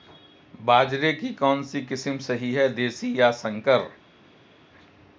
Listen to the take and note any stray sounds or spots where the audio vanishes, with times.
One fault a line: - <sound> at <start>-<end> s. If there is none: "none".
none